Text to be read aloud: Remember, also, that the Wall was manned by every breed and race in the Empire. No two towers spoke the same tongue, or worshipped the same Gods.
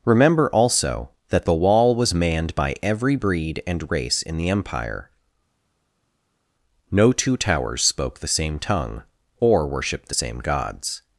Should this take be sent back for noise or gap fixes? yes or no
no